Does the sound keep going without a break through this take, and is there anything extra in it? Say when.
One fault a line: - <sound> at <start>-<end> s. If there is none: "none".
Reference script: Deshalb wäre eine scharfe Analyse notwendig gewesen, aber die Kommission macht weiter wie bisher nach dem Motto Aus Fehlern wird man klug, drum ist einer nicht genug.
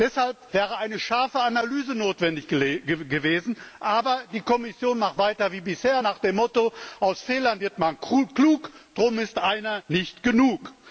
none